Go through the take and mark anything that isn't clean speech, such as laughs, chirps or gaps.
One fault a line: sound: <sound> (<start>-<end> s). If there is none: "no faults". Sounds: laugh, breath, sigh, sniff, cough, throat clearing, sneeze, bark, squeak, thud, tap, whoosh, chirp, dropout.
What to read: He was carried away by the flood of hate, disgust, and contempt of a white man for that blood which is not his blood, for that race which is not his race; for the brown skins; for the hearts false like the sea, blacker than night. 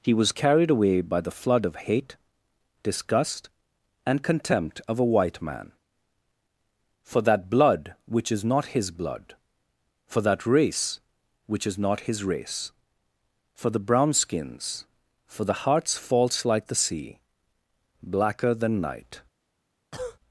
sound: cough (19.9-20.2 s)